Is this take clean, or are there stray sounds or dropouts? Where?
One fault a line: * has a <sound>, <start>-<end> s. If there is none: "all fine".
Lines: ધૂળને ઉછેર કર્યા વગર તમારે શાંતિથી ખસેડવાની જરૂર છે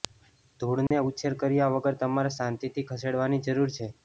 * has a dropout, 0.9-0.9 s